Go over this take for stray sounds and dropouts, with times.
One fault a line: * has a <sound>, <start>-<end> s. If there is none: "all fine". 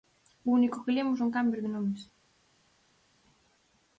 all fine